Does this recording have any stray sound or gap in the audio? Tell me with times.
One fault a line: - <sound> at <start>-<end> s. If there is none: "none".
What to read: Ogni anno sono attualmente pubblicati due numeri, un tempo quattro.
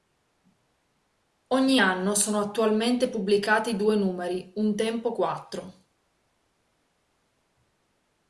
none